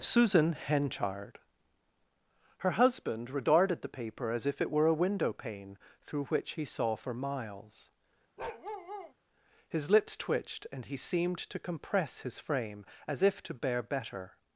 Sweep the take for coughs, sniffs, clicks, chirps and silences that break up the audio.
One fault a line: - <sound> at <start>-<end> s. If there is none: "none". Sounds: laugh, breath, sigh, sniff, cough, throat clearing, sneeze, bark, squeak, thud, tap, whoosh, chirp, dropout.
- bark at 8.4-9.1 s